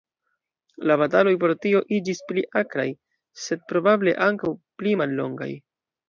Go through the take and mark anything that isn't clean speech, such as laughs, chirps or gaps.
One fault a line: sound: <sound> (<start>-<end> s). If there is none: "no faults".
no faults